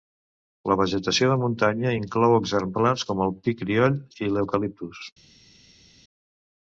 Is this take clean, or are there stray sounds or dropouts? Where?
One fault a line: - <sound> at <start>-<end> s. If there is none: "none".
none